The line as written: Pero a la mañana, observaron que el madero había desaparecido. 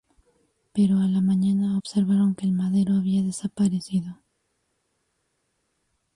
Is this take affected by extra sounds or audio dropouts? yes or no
no